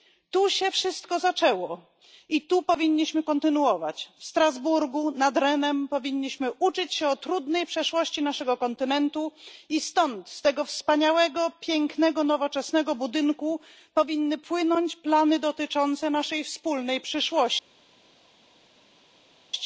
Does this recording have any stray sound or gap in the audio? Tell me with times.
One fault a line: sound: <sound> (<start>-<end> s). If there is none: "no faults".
no faults